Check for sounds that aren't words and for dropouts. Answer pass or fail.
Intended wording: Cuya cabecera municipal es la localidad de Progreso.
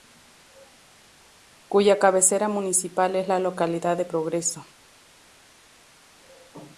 pass